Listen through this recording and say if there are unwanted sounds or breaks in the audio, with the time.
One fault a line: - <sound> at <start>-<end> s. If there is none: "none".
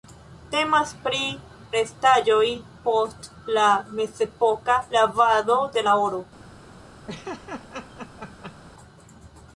- laugh at 7.1-8.6 s